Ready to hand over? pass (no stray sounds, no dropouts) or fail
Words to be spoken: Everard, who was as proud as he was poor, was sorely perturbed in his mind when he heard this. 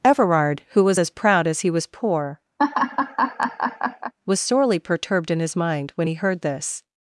fail